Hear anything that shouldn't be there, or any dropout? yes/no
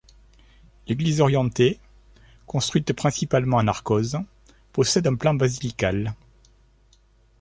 no